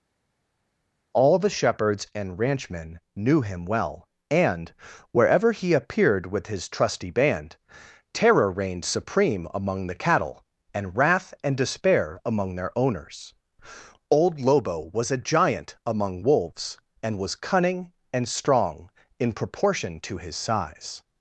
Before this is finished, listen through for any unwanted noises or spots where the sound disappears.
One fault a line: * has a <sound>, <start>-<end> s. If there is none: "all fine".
all fine